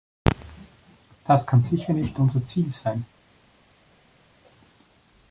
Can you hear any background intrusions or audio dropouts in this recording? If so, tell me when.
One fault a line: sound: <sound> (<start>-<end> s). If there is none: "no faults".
no faults